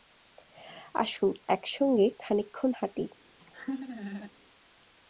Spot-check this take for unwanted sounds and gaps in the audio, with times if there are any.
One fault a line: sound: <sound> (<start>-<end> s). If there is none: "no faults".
sound: laugh (3.4-4.3 s)